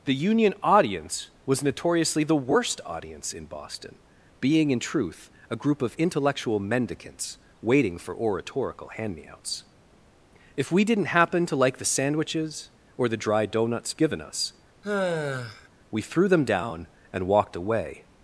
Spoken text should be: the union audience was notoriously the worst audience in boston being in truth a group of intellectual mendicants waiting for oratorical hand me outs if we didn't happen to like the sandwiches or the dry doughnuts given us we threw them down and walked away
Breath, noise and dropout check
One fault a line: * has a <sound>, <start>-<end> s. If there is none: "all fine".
* has a sigh, 14.8-15.7 s